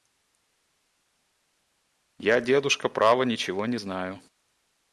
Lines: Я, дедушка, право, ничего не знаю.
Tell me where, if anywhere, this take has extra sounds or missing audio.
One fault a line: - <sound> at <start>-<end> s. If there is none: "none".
none